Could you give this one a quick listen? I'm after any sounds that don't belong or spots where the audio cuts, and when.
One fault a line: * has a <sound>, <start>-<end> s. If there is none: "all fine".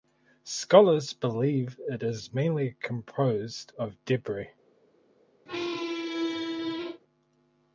* has a squeak, 5.5-7.0 s